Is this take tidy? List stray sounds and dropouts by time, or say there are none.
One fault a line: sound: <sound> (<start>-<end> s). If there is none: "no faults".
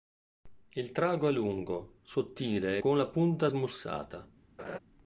sound: laugh (4.6-4.8 s)